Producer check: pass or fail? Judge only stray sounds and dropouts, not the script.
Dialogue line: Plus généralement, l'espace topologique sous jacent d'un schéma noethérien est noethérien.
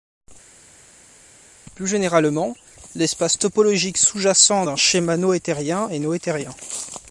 pass